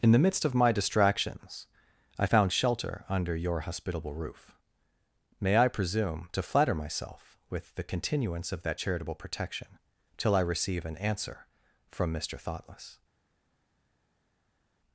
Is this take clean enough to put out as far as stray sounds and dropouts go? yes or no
yes